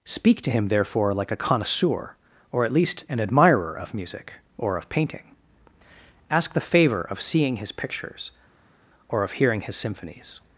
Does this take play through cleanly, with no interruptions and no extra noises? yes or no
yes